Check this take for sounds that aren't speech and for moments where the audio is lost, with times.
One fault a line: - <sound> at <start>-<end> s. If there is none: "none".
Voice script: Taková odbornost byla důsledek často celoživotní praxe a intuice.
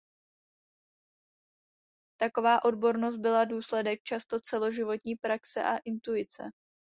none